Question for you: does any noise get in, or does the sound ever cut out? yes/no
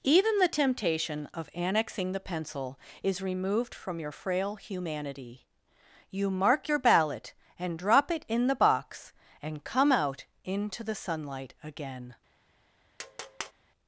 yes